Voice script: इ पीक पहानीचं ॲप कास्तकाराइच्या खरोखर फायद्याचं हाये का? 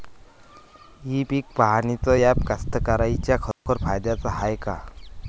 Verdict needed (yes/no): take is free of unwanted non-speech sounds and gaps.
no